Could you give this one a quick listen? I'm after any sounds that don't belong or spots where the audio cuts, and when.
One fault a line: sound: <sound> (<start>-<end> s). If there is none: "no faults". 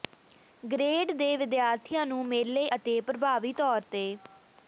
no faults